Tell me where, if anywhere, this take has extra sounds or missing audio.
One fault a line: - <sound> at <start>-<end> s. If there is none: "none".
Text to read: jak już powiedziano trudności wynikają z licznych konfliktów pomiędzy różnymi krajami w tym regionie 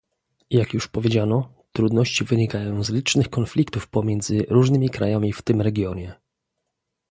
none